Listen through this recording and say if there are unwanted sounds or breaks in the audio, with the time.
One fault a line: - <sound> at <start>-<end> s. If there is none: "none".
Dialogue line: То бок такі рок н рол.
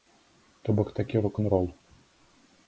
none